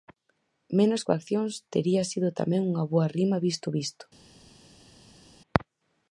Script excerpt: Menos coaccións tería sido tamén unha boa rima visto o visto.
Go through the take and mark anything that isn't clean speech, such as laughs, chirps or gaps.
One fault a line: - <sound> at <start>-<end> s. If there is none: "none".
none